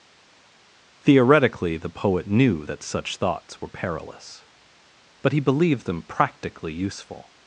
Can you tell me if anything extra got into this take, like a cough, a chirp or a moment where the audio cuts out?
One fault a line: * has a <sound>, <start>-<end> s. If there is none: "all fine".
all fine